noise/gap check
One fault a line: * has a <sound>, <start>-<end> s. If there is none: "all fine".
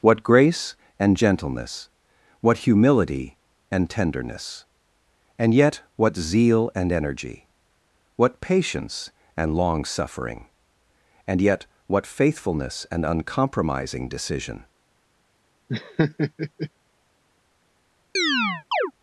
* has a laugh, 15.7-16.7 s
* has a chirp, 18.2-18.9 s